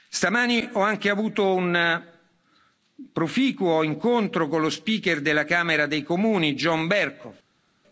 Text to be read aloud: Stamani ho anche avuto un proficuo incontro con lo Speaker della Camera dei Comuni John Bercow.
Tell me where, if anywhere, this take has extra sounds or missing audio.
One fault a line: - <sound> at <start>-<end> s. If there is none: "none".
none